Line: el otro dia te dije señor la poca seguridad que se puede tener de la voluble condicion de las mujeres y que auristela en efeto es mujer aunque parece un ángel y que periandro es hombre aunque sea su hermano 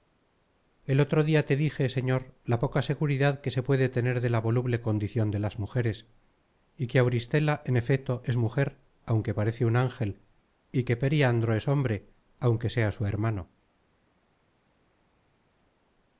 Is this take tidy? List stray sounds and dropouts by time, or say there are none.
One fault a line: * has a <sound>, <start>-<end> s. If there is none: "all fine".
all fine